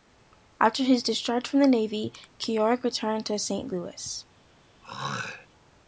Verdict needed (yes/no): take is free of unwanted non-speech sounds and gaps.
no